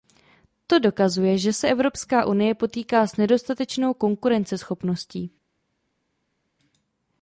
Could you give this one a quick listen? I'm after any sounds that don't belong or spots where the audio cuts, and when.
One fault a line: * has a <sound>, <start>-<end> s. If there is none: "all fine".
all fine